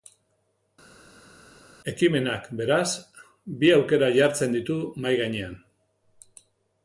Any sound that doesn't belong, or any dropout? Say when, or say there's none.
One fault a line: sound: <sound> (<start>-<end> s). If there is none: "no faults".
no faults